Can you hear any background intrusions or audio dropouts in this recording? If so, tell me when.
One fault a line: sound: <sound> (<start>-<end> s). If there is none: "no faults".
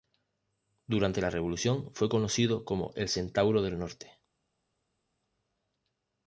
no faults